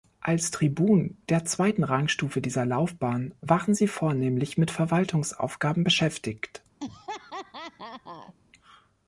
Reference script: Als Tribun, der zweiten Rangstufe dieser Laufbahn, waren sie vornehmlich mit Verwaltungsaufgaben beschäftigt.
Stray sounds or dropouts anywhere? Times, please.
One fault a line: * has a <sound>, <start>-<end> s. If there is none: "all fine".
* has a laugh, 6.8-8.3 s